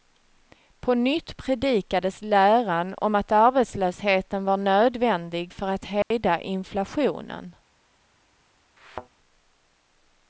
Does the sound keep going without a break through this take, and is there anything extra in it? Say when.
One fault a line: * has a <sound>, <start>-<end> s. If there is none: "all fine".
* has a dropout, 6.0-6.1 s
* has a thud, 8.8-9.1 s